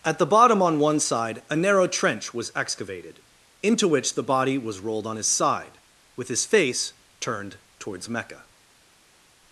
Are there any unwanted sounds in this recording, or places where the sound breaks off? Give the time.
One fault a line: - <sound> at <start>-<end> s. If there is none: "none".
none